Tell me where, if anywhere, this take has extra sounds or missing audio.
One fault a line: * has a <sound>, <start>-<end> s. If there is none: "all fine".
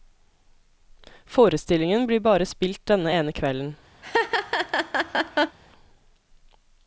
* has a laugh, 4.0-5.6 s